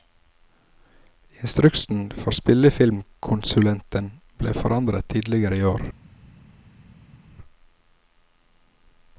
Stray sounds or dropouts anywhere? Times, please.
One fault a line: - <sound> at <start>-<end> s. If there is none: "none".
none